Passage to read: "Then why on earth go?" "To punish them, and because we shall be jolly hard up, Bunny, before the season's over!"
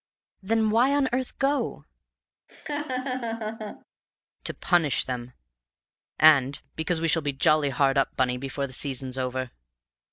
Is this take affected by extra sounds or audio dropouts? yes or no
yes